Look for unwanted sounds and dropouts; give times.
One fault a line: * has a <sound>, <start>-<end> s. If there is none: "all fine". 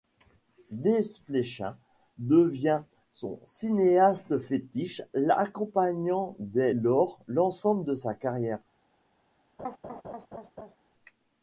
* has a laugh, 9.6-10.8 s